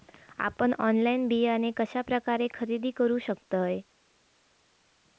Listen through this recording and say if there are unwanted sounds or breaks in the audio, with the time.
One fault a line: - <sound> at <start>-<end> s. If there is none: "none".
none